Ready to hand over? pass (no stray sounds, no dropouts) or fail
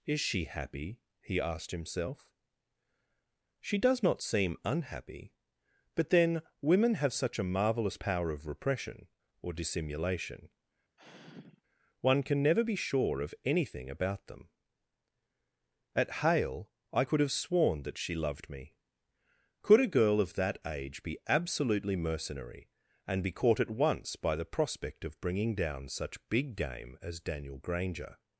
fail